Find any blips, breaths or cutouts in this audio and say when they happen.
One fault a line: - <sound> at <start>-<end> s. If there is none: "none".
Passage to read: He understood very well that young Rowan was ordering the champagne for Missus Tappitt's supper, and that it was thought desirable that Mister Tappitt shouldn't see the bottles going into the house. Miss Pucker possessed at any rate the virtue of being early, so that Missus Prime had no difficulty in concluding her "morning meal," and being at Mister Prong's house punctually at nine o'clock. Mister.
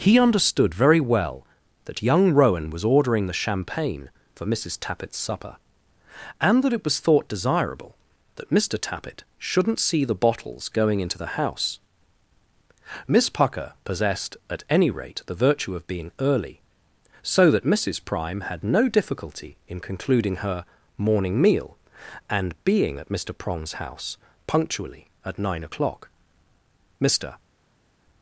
none